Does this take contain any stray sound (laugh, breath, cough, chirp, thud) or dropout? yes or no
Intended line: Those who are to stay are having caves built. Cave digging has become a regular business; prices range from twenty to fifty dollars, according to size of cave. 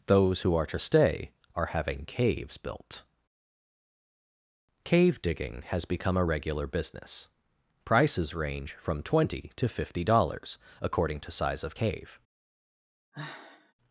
yes